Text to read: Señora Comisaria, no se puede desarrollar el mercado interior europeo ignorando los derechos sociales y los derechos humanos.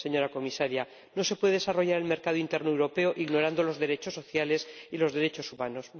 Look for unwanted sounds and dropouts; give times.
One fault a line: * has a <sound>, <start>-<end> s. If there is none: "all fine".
all fine